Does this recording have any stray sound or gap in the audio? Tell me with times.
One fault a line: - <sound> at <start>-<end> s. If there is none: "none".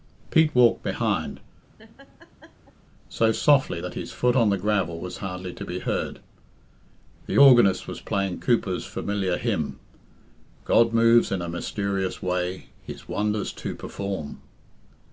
- laugh at 1.8-2.8 s